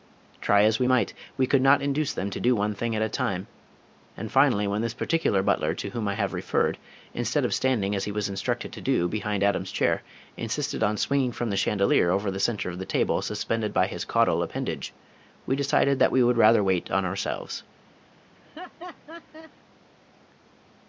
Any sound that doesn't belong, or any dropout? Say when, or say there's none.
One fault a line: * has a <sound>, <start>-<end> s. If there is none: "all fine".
* has a laugh, 18.4-19.5 s